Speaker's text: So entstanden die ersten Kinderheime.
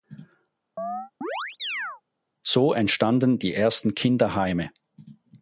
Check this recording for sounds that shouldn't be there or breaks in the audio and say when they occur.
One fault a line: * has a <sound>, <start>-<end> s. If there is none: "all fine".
* has a chirp, 0.8-2.0 s